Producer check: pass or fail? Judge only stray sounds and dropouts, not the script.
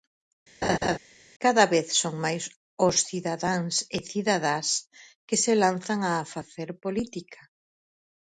fail